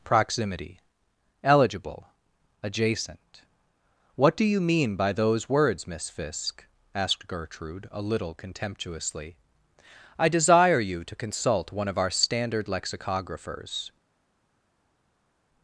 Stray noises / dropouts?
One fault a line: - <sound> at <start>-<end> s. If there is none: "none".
none